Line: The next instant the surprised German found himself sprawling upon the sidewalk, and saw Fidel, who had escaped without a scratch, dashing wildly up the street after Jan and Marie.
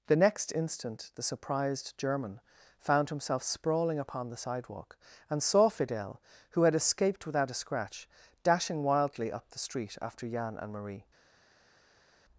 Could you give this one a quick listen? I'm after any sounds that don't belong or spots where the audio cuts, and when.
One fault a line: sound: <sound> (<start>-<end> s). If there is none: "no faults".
no faults